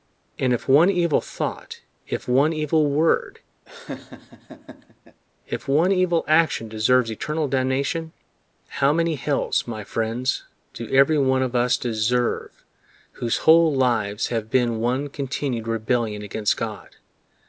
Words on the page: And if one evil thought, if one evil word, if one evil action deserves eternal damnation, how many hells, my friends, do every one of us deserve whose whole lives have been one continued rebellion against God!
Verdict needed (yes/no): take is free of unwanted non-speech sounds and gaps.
no